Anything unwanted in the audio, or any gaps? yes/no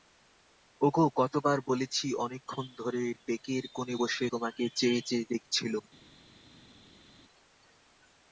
no